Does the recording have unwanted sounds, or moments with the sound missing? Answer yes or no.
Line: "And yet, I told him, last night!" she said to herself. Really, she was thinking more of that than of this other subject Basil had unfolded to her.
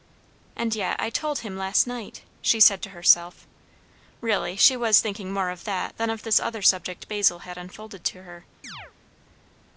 yes